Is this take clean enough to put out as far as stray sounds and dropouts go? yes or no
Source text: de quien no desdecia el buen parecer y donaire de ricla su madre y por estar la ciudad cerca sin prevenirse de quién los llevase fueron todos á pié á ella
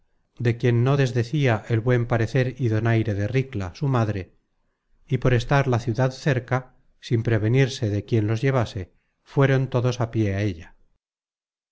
yes